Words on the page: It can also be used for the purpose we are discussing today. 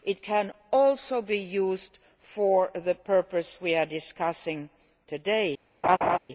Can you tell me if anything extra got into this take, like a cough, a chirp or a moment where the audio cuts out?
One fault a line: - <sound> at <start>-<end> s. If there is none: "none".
- laugh at 5.8-6.2 s